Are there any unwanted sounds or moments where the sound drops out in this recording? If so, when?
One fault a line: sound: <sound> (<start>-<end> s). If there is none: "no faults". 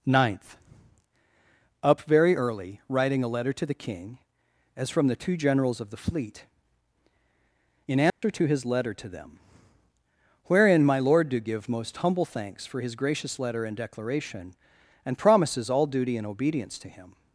sound: dropout (8.1-8.2 s)